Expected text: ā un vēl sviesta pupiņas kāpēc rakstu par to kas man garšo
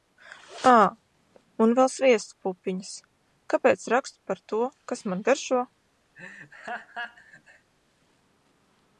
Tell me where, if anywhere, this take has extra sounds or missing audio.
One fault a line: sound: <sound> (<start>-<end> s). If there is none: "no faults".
sound: laugh (6.2-7.7 s)